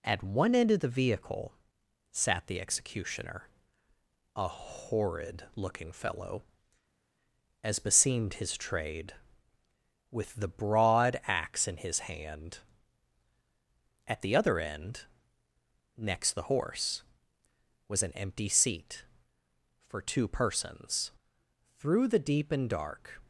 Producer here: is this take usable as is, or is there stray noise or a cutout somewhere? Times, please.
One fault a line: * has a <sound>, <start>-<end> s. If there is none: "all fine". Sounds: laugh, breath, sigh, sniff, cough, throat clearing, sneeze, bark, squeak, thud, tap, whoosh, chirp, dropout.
all fine